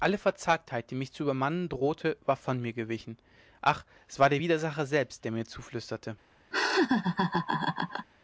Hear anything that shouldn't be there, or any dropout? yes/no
yes